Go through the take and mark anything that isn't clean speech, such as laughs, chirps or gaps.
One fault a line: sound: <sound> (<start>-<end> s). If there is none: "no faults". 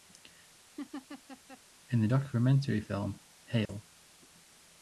sound: laugh (0.8-1.6 s)
sound: dropout (3.7-3.7 s)